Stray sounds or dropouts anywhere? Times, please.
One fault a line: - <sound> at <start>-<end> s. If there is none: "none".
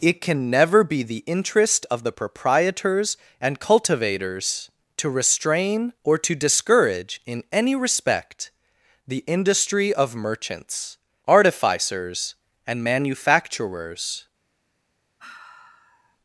- sigh at 15.2-16.2 s